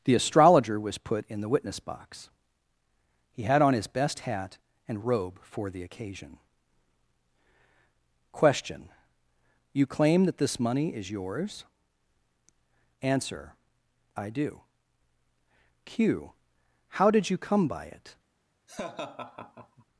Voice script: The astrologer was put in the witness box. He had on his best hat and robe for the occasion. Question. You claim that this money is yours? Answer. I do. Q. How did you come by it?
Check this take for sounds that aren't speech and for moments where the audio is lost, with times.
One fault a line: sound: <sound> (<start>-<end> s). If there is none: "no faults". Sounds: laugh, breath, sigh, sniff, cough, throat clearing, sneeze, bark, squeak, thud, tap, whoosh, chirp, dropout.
sound: laugh (18.7-19.8 s)